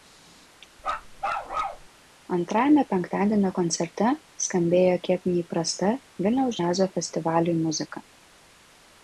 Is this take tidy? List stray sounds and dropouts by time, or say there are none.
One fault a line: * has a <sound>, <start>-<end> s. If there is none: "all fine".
* has a bark, 0.8-1.9 s